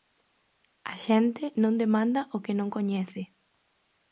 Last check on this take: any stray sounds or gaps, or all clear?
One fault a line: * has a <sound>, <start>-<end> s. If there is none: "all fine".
all fine